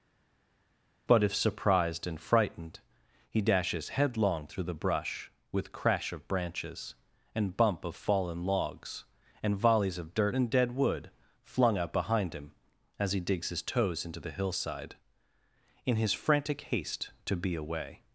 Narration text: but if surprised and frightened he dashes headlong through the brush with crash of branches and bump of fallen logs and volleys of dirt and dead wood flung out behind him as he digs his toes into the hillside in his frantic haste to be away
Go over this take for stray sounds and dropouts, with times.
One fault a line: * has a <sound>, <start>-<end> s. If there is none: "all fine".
all fine